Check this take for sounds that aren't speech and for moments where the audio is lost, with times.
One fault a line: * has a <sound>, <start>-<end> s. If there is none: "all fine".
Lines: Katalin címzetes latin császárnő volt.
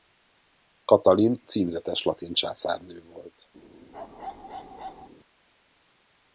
* has a bark, 3.9-5.1 s